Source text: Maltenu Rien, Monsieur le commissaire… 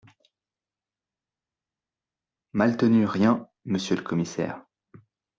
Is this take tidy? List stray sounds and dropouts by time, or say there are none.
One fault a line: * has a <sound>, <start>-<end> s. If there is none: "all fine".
all fine